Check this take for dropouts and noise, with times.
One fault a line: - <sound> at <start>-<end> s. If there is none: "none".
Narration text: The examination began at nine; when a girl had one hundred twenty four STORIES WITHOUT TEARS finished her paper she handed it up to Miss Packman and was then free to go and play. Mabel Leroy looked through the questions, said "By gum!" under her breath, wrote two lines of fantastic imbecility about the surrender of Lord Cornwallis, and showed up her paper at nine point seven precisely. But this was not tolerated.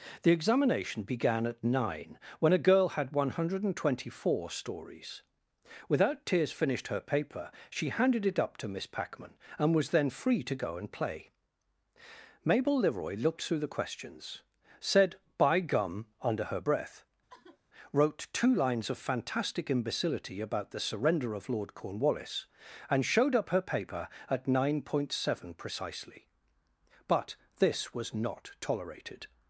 - sigh at 17.3-17.6 s